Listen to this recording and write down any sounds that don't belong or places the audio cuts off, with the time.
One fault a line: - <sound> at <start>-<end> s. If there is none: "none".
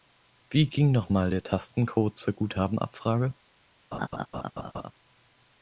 - laugh at 3.9-4.9 s